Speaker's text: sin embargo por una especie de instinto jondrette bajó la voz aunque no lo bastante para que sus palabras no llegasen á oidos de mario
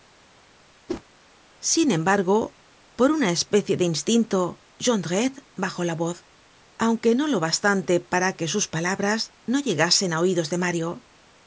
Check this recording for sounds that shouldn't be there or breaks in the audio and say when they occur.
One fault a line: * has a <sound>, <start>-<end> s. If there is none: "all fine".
* has a whoosh, 0.9-1.0 s